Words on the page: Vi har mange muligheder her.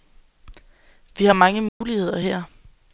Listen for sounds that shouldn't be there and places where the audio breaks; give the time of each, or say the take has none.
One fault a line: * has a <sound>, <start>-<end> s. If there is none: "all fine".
* has a dropout, 1.7-1.8 s